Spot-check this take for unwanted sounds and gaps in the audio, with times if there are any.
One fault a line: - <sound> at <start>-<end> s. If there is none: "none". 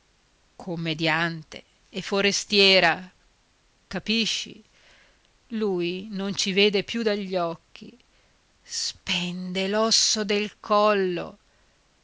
none